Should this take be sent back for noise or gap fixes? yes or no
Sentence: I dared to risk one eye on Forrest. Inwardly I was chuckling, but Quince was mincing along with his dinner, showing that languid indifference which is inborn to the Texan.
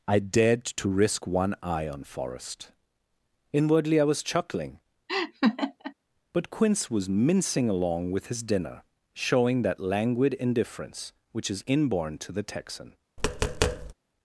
yes